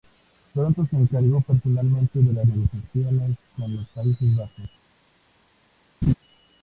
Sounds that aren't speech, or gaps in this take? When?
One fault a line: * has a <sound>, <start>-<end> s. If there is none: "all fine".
* has a laugh, 6.0-6.1 s